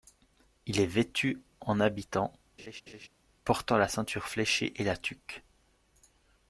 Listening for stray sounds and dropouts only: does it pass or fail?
fail